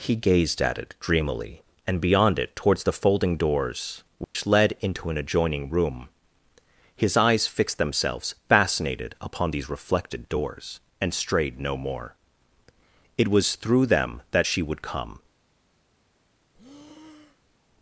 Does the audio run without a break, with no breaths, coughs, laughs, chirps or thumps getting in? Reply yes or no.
no